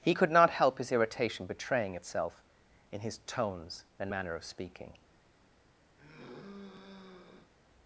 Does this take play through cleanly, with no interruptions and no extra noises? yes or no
no